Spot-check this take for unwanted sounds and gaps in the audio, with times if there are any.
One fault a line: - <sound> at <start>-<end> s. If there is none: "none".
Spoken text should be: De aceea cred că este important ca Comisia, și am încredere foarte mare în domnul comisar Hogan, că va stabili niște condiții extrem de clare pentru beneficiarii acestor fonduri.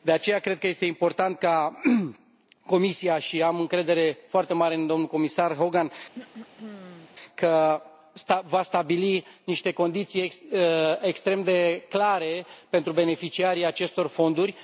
- throat clearing at 6.1-7.1 s